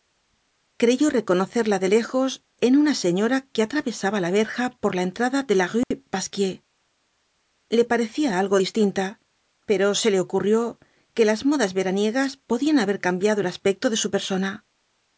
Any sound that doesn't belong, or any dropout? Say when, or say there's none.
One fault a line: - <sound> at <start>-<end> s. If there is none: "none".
- dropout at 5.8-5.9 s